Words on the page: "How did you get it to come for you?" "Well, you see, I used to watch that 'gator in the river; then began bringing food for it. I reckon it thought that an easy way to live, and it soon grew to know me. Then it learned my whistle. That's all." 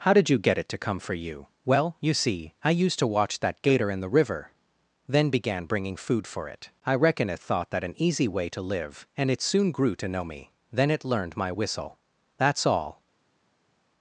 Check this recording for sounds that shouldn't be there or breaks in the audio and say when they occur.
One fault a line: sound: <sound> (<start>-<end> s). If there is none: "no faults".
no faults